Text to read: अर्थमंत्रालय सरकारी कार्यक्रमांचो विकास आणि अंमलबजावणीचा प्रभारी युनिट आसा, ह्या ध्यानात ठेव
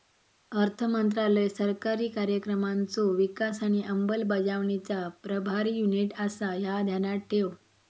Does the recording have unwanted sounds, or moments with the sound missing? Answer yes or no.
no